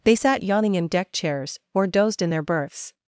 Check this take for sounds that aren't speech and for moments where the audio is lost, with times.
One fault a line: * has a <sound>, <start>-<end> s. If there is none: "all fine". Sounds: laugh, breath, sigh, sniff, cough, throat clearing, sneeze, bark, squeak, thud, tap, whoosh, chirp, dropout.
all fine